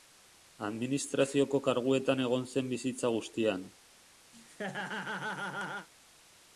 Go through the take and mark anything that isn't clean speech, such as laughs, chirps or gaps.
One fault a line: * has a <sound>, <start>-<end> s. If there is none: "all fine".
* has a laugh, 4.3-5.9 s